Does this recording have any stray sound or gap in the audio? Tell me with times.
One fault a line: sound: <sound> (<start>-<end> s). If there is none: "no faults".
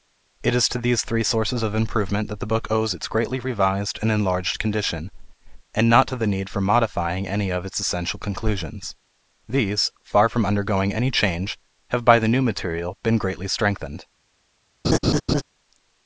sound: laugh (14.8-15.4 s)